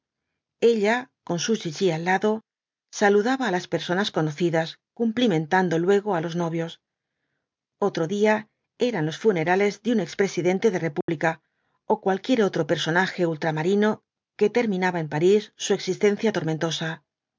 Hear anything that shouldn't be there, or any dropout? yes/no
yes